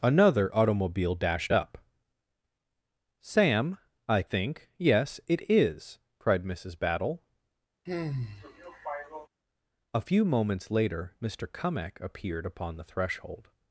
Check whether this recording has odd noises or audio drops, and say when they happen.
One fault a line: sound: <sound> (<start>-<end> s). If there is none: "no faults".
sound: sigh (7.9-9.3 s)